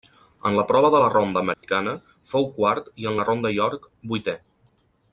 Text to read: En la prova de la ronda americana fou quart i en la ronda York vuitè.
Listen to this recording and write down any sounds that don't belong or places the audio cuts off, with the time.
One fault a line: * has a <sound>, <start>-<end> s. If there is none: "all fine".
* has a dropout, 1.5-1.6 s